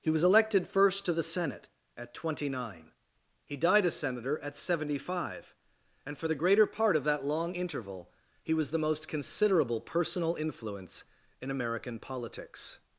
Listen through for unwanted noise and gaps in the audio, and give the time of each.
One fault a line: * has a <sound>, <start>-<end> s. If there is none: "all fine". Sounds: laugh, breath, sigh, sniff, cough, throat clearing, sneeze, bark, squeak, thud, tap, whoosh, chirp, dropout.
all fine